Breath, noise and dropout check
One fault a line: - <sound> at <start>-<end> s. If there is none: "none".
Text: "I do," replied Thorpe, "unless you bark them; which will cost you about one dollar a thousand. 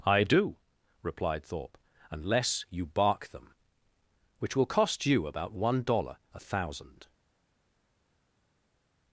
none